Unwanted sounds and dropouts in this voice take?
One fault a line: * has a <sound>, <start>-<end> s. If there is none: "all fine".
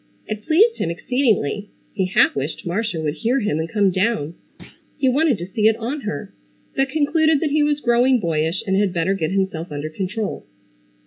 * has a thud, 4.6-4.8 s